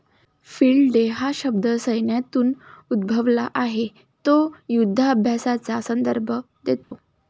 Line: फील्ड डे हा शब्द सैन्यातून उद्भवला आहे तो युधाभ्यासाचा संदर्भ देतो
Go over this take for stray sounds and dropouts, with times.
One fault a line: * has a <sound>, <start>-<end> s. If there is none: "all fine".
* has a dropout, 6.8-6.9 s